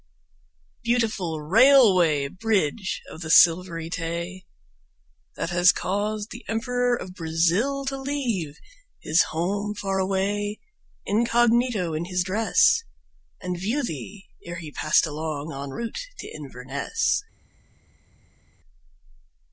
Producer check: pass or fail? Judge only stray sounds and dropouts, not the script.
pass